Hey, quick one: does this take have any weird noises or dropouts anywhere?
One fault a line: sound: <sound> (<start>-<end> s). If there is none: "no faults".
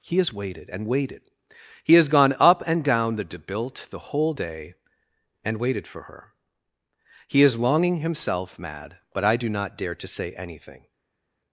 no faults